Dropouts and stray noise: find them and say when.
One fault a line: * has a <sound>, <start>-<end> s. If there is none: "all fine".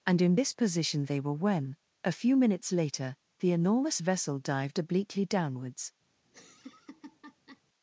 * has a laugh, 6.2-7.6 s